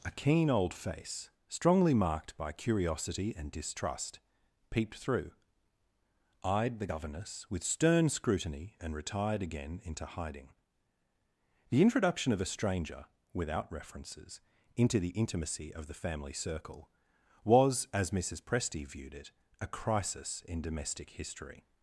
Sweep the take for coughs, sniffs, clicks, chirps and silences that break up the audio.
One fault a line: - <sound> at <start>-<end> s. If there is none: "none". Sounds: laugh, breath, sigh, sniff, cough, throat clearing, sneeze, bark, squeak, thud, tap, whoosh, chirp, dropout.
none